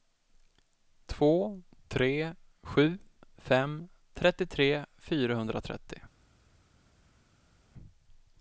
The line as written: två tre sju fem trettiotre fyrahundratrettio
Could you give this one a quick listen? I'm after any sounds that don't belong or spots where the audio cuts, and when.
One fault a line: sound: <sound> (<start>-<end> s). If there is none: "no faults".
no faults